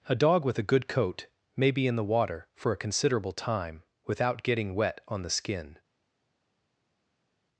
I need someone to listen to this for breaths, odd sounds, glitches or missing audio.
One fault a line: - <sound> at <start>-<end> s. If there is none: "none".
none